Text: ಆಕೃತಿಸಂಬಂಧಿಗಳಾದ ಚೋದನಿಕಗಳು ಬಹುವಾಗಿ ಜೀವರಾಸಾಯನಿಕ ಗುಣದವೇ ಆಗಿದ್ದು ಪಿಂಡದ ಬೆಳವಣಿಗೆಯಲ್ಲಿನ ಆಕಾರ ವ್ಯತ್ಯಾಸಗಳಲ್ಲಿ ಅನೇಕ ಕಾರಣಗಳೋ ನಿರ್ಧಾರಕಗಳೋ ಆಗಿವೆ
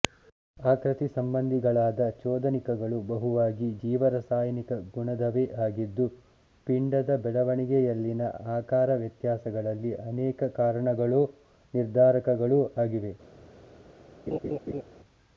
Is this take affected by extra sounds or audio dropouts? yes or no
yes